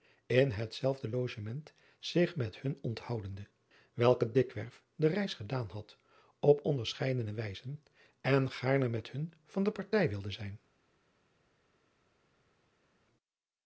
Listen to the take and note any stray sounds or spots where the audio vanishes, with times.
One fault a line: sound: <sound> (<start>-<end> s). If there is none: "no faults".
no faults